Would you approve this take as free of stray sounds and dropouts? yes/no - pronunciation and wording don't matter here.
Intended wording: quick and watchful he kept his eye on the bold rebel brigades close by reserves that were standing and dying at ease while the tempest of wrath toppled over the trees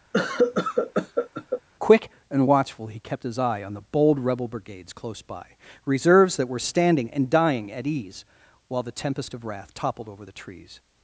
no